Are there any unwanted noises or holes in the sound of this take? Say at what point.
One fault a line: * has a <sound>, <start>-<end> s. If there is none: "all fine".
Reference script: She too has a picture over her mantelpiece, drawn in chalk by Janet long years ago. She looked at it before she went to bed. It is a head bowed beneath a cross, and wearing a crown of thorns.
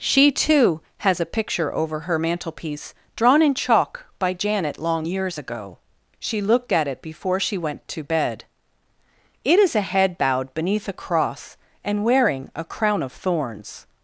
all fine